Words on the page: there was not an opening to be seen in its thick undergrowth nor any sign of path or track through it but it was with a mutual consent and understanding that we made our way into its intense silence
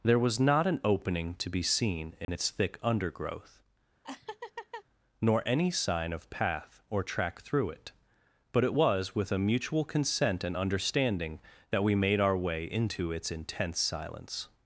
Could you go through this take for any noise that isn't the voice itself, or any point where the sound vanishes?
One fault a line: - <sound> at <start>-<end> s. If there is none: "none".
- dropout at 2.2-2.3 s
- laugh at 4.0-4.8 s